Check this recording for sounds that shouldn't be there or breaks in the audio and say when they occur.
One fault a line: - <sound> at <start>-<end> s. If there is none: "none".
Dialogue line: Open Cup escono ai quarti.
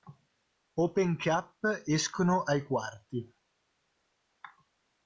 none